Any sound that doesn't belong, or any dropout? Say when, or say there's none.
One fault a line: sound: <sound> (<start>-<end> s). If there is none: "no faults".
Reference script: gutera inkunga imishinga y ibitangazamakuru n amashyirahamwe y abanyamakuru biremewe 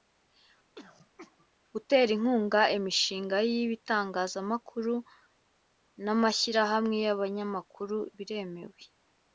sound: throat clearing (0.8-1.5 s)